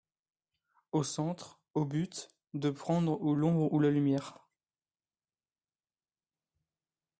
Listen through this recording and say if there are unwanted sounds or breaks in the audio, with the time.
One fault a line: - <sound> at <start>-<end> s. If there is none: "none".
none